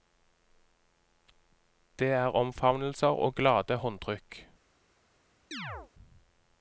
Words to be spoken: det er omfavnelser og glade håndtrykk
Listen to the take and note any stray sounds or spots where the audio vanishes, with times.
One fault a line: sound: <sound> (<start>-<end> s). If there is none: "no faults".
sound: chirp (5.5-5.9 s)